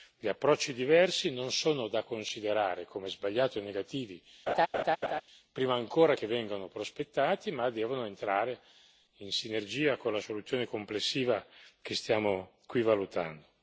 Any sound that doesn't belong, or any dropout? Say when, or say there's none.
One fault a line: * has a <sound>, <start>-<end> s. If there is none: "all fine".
* has a laugh, 4.5-5.2 s